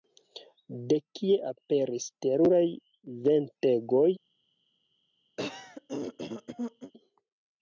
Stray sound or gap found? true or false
true